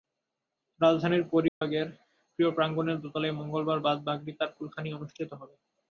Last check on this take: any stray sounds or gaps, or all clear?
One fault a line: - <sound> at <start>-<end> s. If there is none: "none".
- dropout at 1.5-1.6 s